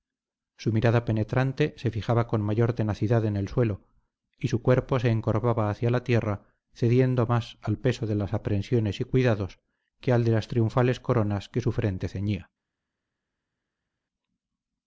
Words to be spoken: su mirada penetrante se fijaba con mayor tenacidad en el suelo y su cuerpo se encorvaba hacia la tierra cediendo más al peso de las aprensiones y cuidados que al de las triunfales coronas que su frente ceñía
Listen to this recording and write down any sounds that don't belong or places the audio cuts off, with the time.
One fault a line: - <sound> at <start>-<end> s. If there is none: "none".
none